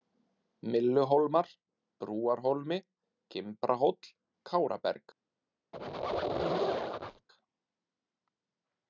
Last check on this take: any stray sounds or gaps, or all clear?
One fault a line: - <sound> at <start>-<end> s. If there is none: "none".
- squeak at 5.7-7.3 s